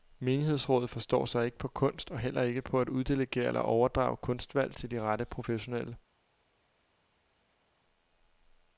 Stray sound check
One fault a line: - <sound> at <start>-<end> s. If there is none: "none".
none